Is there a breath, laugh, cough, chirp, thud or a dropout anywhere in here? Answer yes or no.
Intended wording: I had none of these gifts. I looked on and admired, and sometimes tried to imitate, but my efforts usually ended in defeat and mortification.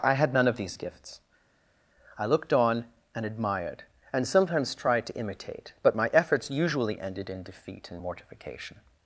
no